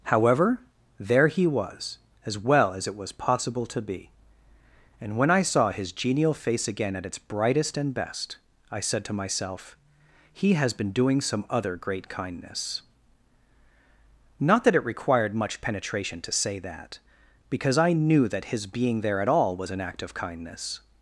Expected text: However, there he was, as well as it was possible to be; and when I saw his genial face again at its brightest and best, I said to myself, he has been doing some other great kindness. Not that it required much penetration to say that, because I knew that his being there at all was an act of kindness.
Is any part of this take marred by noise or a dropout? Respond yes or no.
no